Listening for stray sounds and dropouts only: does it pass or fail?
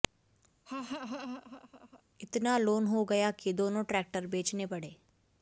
fail